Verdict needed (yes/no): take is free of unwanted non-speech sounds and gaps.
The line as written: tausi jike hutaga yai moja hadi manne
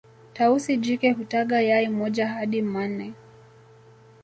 yes